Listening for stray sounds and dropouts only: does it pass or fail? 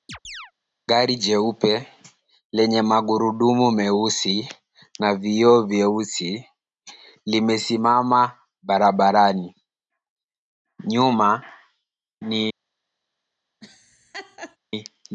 fail